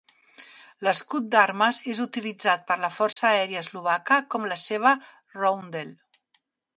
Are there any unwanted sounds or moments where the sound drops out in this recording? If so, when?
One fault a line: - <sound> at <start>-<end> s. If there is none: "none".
- dropout at 3.1-3.2 s